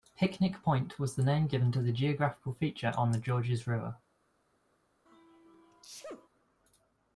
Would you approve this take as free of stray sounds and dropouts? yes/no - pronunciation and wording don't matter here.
no